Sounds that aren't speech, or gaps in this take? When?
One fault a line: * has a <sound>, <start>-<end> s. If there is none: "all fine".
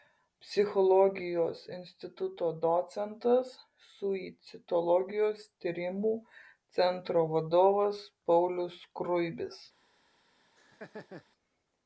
* has a laugh, 10.6-11.2 s